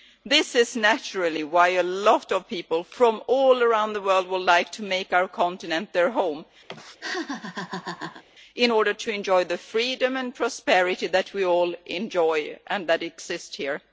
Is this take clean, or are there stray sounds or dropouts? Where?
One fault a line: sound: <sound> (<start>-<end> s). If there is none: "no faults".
sound: laugh (6.7-8.2 s)